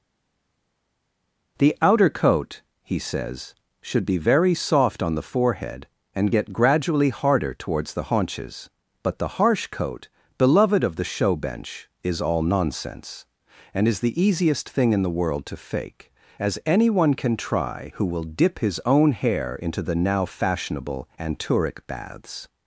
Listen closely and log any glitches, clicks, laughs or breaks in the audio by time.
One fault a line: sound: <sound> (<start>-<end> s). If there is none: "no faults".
no faults